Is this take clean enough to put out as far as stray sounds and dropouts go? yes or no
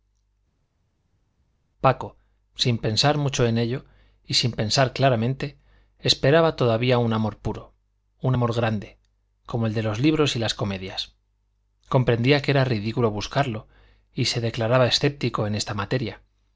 yes